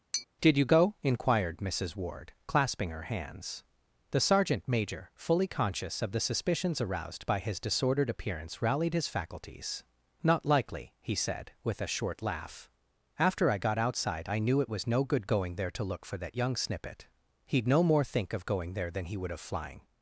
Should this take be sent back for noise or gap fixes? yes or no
yes